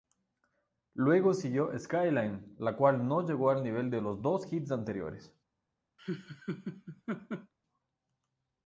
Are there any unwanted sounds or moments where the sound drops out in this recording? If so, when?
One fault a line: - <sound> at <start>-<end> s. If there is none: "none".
- laugh at 6.0-7.5 s